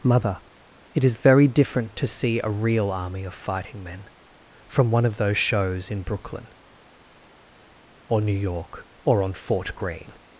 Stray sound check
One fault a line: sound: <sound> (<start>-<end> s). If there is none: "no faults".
no faults